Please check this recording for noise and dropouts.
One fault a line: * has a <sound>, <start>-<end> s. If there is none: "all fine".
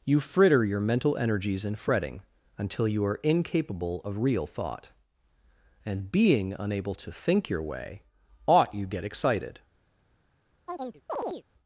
* has a chirp, 10.7-11.4 s